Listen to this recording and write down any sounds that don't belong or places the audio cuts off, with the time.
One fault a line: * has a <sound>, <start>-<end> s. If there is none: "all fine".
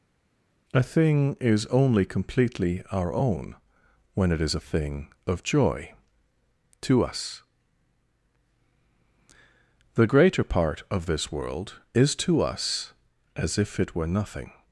all fine